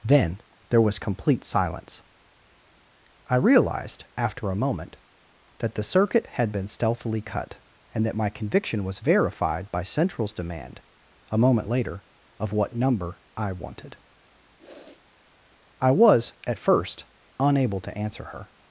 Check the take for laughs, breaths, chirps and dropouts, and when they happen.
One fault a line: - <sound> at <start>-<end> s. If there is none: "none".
- sniff at 14.6-15.1 s